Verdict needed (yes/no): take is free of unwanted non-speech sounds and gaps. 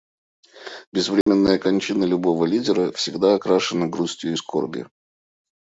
no